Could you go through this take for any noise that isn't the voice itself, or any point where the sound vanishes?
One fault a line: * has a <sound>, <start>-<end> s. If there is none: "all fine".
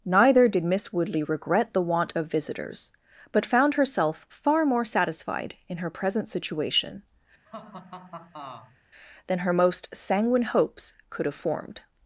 * has a laugh, 7.4-8.8 s